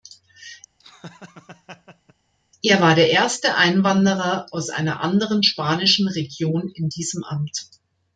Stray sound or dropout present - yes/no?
yes